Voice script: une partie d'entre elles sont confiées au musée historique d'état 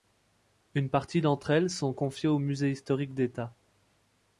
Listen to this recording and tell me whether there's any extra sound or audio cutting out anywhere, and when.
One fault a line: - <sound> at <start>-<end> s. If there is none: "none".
none